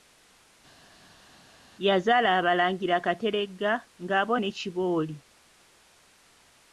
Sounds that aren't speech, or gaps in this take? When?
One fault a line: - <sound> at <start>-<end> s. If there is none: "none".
none